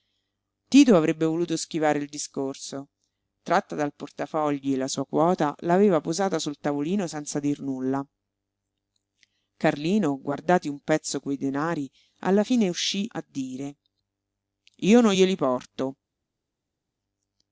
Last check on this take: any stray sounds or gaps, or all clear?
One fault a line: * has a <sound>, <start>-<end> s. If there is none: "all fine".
all fine